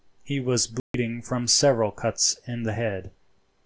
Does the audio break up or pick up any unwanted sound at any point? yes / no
yes